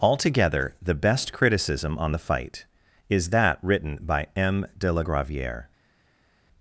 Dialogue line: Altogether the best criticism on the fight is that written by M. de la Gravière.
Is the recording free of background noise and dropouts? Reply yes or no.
yes